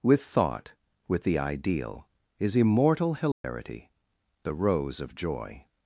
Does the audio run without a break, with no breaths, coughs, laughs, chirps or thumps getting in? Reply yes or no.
no